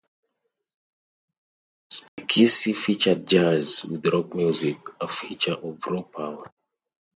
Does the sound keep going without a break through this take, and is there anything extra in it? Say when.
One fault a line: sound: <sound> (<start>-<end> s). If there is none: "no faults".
sound: dropout (2.1-2.2 s)